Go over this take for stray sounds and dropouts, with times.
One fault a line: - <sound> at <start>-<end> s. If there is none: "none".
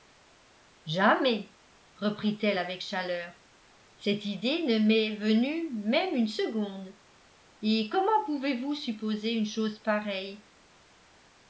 none